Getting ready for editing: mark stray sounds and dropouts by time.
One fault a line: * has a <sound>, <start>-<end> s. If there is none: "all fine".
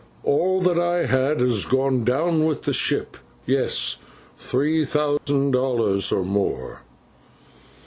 * has a dropout, 5.2-5.3 s